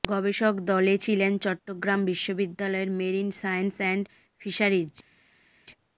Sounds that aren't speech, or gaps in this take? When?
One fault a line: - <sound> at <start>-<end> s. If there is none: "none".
none